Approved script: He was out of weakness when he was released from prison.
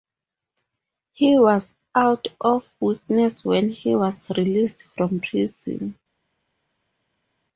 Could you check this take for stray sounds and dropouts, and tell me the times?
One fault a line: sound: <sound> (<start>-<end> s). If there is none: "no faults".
no faults